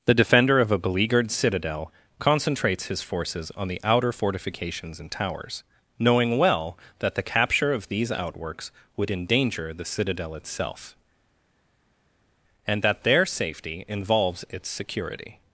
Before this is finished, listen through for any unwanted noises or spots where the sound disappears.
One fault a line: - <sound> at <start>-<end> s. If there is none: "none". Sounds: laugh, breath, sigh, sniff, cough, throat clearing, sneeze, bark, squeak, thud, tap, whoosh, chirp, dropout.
none